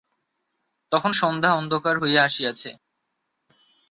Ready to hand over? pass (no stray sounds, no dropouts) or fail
pass